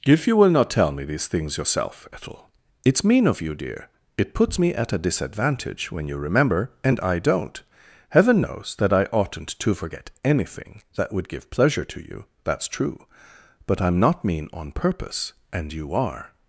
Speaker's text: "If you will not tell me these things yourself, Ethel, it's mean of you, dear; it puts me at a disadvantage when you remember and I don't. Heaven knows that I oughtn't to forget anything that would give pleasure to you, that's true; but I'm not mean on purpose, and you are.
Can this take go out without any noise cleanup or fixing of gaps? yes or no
yes